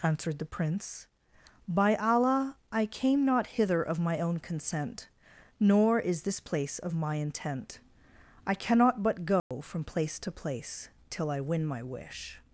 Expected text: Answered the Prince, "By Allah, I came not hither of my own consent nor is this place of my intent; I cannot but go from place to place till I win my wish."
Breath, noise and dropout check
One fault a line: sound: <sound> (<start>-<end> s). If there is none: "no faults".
sound: dropout (9.4-9.5 s)